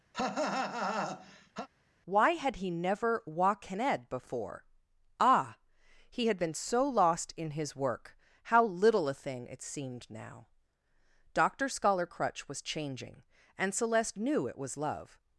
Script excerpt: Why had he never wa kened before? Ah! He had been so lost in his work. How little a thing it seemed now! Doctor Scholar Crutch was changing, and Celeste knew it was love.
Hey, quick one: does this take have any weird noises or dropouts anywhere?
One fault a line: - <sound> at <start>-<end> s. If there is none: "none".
- cough at 0.1-1.7 s